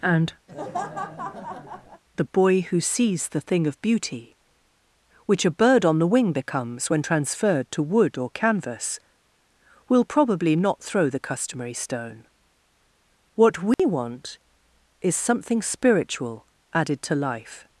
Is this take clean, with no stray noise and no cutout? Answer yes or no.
no